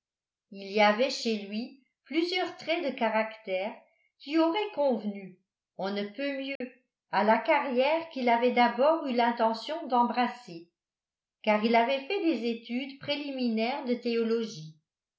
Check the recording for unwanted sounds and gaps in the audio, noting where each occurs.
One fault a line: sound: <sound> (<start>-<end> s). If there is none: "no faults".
sound: dropout (6.6-6.6 s)